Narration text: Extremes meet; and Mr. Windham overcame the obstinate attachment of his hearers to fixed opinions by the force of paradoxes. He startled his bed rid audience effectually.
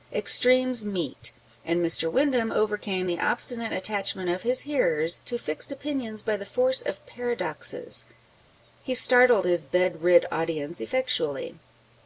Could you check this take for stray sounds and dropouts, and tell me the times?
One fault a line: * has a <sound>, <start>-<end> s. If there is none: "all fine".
all fine